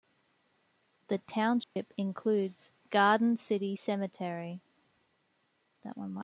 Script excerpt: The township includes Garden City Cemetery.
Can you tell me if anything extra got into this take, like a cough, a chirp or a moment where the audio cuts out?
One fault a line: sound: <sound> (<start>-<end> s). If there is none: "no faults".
sound: dropout (1.6-1.8 s)